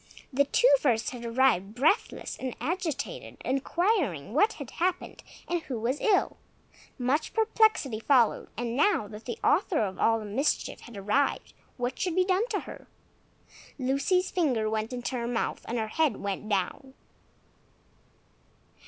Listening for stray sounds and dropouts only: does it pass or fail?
pass